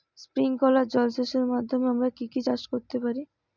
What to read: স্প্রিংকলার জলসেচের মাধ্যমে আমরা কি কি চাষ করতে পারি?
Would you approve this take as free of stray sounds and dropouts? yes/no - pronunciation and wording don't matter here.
yes